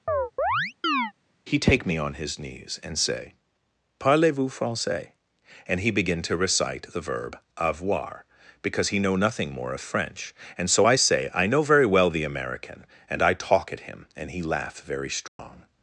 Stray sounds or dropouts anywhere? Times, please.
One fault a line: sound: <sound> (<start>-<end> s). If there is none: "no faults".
sound: chirp (0.1-1.1 s)
sound: dropout (15.3-15.4 s)